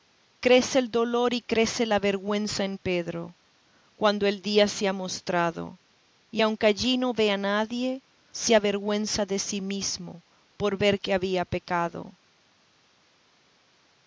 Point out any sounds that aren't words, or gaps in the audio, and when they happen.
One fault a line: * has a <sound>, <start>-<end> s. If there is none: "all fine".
all fine